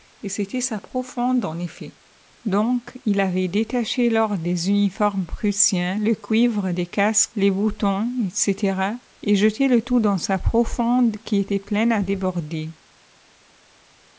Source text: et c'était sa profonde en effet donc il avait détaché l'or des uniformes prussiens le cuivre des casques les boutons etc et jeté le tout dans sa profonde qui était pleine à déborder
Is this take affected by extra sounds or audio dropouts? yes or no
no